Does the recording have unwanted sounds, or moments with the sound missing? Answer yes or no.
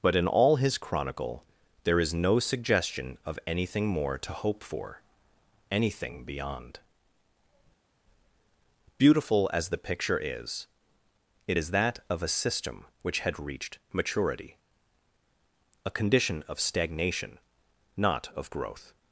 no